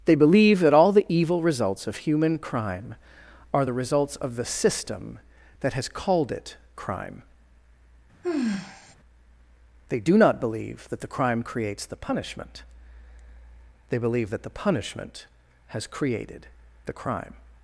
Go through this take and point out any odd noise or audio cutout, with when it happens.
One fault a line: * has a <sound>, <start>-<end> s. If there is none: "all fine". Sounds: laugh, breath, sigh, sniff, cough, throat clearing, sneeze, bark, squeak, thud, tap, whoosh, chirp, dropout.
* has a sigh, 8.2-9.0 s